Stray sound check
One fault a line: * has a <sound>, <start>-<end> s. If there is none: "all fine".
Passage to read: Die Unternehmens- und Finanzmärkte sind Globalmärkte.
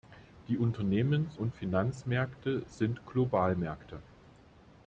all fine